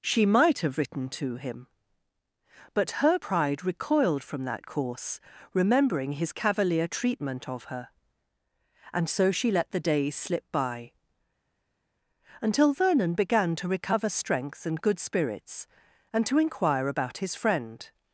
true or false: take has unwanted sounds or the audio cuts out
false